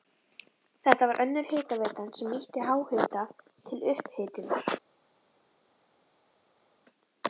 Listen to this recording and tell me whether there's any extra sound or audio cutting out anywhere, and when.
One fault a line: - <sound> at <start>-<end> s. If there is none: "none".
none